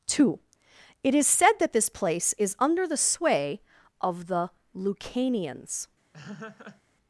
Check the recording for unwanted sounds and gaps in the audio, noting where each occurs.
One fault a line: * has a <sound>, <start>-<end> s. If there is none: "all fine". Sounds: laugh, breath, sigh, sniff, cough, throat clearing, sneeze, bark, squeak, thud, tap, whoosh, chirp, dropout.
* has a laugh, 6.1-6.8 s